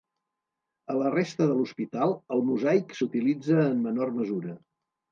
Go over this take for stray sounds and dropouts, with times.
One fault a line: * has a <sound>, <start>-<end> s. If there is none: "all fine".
all fine